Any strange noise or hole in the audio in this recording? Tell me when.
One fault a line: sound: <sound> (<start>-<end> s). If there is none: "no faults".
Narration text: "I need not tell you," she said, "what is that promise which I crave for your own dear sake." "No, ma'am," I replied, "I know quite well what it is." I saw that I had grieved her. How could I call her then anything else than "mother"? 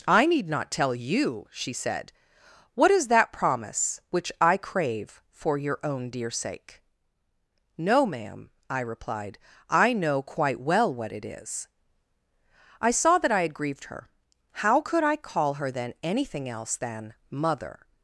no faults